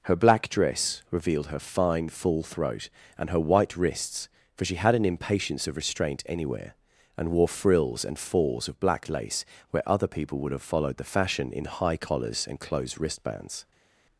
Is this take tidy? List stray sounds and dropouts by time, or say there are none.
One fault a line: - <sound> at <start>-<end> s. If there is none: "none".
none